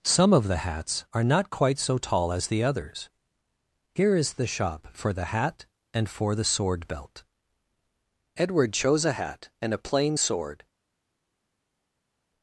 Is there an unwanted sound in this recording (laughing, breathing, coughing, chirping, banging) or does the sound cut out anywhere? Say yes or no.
no